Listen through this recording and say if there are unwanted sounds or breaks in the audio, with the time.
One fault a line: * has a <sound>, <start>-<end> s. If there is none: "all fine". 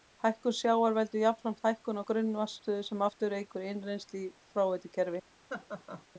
* has a laugh, 5.5-6.1 s